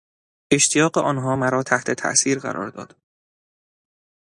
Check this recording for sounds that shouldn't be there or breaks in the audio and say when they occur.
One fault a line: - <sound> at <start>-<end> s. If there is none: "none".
none